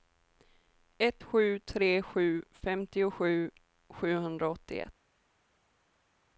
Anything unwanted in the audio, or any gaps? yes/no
no